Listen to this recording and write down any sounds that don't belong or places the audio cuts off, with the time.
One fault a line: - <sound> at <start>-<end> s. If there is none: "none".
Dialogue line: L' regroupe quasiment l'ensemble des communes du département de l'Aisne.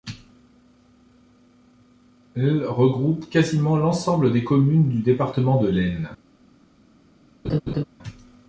- laugh at 7.4-7.8 s